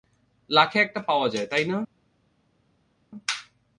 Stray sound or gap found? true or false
false